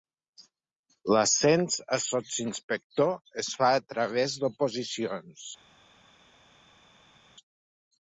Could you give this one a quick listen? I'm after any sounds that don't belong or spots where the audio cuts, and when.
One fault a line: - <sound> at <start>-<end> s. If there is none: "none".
none